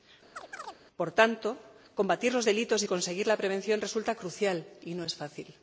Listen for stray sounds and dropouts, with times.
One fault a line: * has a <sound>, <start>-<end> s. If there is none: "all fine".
* has a chirp, 0.4-0.8 s